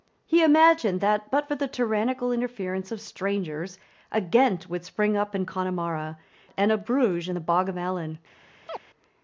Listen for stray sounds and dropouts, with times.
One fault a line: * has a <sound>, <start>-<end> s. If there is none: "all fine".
* has a chirp, 8.7-8.8 s